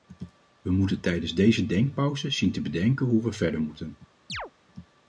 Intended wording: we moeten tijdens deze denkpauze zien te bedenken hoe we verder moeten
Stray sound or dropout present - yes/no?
yes